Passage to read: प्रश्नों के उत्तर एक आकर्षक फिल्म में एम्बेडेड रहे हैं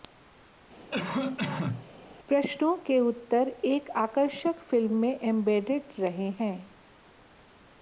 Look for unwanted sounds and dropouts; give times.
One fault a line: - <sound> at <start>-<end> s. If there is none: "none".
- cough at 0.9-1.9 s